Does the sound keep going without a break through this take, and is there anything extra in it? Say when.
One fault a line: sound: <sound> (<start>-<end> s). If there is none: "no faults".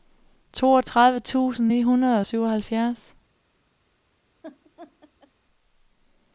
sound: laugh (4.4-5.3 s)